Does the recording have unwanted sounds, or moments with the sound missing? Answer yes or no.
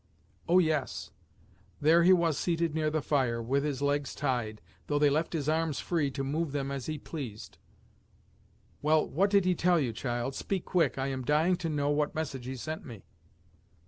no